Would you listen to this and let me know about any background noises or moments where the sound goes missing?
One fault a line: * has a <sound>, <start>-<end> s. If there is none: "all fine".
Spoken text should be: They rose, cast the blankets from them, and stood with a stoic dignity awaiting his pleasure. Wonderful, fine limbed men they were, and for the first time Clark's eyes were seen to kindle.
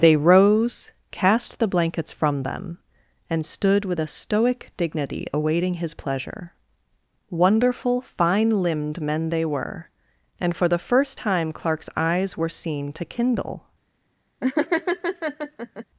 * has a laugh, 14.4-15.8 s